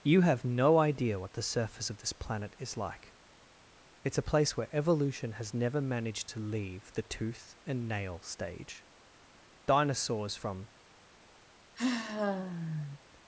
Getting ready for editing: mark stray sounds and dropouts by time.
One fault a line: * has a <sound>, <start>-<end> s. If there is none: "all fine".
* has a sigh, 11.8-13.0 s